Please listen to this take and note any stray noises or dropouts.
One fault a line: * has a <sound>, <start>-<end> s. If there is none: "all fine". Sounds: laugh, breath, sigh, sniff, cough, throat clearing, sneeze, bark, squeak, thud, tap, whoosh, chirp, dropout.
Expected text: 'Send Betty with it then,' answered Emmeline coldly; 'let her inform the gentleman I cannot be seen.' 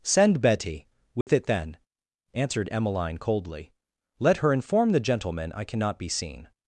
* has a dropout, 1.2-1.3 s